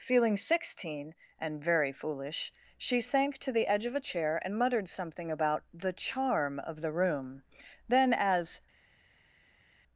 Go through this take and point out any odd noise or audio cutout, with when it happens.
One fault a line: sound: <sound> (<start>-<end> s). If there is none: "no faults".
no faults